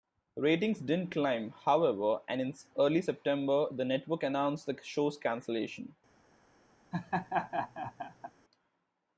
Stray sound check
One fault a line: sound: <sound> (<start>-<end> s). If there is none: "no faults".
sound: laugh (6.9-8.3 s)